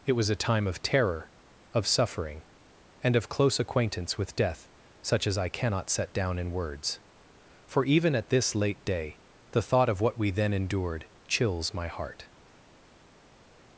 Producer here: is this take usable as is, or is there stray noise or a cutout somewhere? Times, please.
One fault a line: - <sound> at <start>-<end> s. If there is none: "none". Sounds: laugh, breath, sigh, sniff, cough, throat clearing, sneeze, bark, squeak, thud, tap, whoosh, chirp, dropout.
none